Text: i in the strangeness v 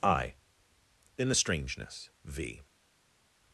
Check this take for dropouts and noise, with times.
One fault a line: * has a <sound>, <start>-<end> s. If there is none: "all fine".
all fine